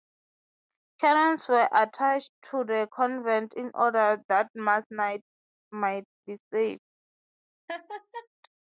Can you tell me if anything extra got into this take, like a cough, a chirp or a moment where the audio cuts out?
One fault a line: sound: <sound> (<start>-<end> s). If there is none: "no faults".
sound: laugh (7.7-8.3 s)